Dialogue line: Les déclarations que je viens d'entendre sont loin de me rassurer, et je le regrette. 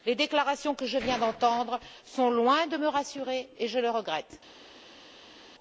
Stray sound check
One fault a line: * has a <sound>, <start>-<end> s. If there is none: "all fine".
all fine